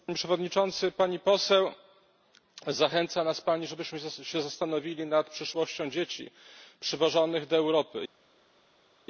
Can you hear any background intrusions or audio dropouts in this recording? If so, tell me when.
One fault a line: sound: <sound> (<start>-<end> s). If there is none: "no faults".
no faults